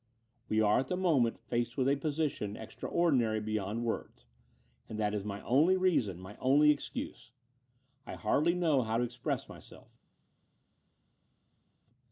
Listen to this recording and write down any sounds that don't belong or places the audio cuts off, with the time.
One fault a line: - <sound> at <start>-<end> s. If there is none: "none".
none